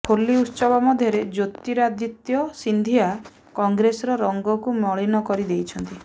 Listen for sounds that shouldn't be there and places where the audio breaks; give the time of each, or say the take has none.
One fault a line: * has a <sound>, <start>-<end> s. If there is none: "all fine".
all fine